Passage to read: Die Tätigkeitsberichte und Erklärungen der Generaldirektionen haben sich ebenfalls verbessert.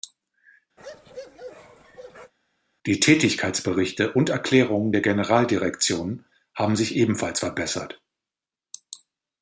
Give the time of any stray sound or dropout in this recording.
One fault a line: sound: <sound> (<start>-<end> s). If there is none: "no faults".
sound: bark (0.8-2.3 s)